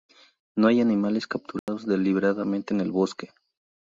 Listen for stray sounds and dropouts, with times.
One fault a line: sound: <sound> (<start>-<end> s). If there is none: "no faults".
sound: dropout (1.6-1.7 s)